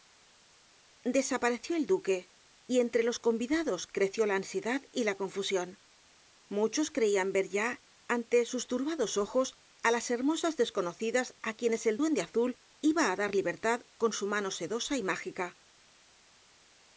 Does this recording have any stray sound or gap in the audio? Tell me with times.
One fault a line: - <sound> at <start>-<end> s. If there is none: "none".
none